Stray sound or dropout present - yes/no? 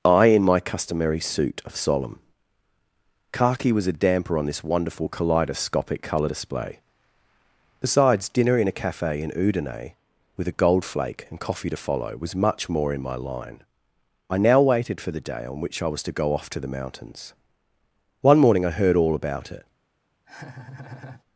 yes